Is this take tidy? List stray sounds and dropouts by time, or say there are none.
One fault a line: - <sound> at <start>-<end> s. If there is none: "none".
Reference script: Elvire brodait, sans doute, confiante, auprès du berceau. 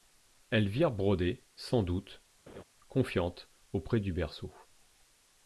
- laugh at 2.5-2.6 s